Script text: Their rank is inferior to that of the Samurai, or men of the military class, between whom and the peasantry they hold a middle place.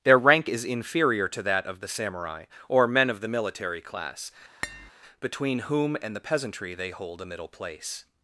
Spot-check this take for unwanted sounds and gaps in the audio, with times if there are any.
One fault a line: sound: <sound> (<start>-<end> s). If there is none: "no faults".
sound: tap (4.6-4.9 s)